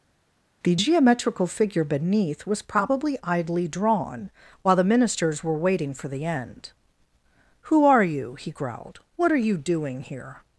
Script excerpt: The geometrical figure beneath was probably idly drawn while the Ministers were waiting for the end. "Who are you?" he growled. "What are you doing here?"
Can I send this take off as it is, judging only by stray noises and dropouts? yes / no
yes